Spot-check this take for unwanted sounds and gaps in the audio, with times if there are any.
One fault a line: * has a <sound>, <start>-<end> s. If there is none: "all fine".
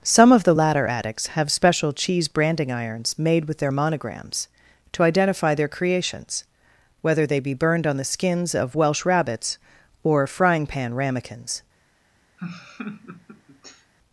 * has a laugh, 12.4-13.9 s